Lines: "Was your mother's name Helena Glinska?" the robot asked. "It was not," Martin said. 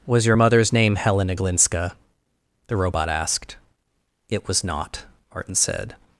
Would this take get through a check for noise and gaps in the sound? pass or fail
pass